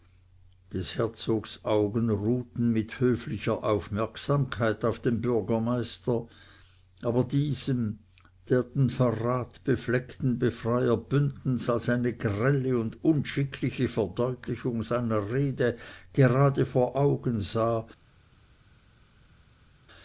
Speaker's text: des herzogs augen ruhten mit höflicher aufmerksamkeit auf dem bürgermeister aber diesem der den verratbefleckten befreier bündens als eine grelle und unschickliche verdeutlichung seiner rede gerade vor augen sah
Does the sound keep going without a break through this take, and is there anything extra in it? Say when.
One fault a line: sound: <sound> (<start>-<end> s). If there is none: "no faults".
no faults